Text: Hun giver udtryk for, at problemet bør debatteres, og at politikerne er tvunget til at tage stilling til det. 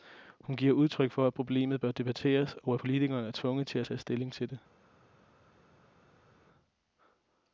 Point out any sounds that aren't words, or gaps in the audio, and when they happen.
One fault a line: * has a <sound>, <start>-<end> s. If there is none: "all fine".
all fine